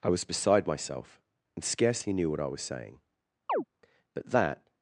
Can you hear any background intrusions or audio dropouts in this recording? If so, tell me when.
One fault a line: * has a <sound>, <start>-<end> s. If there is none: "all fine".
* has a chirp, 3.5-3.6 s